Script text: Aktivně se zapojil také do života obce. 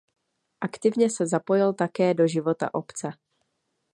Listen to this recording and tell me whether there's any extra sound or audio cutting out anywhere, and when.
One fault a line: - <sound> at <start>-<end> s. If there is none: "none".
none